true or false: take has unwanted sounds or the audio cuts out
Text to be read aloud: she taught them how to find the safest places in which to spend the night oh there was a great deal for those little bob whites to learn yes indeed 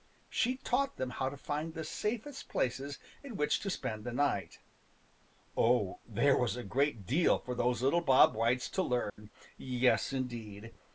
true